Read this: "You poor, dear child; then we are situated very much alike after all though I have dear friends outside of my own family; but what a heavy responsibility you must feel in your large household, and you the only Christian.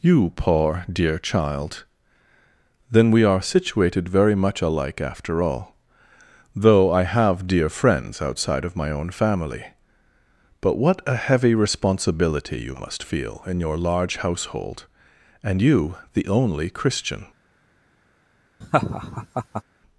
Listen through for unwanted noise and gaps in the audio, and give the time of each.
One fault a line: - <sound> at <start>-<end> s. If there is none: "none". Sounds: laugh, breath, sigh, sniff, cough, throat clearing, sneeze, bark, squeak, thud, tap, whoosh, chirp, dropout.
- laugh at 18.6-19.6 s